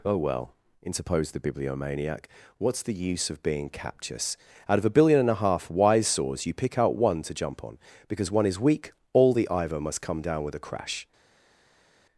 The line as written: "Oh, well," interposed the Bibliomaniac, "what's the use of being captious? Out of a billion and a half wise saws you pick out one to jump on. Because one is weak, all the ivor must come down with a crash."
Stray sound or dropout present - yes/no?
no